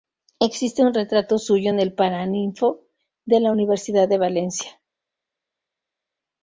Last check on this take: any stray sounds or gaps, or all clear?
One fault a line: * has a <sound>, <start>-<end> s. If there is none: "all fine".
all fine